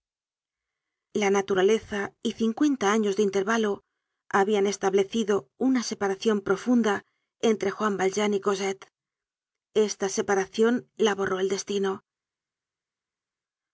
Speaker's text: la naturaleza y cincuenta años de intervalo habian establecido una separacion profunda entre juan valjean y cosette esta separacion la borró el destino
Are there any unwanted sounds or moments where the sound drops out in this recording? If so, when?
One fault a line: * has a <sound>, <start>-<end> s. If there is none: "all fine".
all fine